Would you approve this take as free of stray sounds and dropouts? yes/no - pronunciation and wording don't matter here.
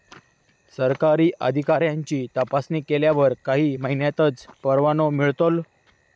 yes